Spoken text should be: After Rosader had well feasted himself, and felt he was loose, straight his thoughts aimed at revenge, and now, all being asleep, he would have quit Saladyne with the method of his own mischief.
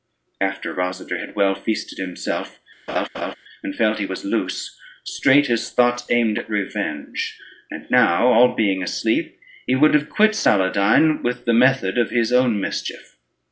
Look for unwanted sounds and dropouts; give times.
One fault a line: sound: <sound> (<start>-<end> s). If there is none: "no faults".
sound: laugh (2.9-3.4 s)